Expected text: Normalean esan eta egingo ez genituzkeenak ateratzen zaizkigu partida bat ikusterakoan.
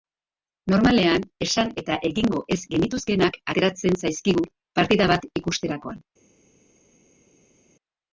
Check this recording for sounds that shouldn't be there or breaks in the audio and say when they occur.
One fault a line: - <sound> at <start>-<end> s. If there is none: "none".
none